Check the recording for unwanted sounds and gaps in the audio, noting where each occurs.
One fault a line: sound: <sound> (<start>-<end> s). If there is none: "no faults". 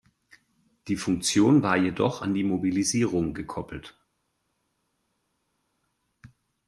no faults